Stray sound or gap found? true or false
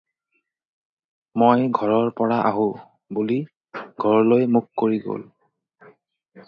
false